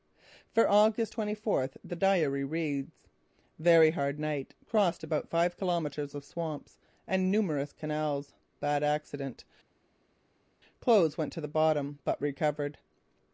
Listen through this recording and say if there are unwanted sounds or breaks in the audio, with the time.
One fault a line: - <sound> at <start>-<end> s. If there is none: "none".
none